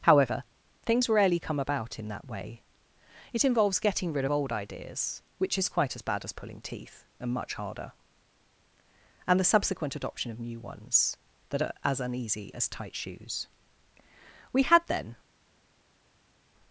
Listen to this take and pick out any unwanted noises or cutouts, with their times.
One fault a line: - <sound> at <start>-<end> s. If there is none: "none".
none